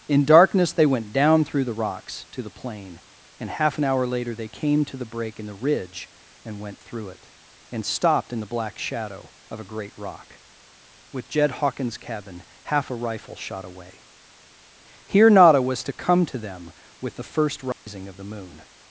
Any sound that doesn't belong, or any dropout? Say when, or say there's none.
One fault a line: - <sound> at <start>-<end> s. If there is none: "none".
- dropout at 17.7-17.9 s